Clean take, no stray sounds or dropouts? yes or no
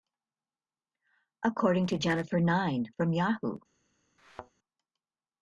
no